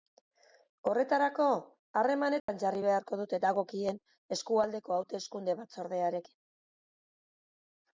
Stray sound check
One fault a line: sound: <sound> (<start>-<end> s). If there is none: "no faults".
sound: dropout (2.4-2.5 s)